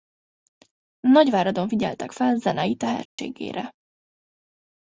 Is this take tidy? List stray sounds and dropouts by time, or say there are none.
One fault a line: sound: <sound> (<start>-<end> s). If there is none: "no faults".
sound: dropout (3.1-3.2 s)